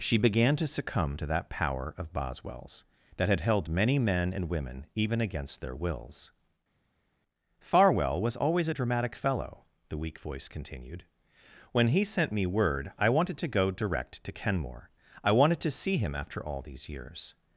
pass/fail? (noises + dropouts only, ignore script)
pass